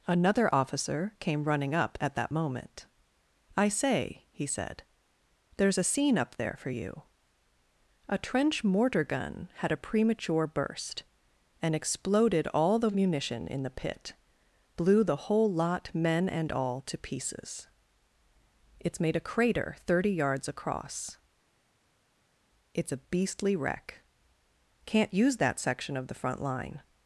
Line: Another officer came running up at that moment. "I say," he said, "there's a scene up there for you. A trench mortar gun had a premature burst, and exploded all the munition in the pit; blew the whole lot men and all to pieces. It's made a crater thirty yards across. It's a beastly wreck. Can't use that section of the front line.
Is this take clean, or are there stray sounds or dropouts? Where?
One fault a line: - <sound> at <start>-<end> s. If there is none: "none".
none